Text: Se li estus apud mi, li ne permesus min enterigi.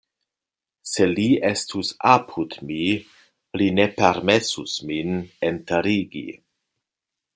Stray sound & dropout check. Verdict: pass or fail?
pass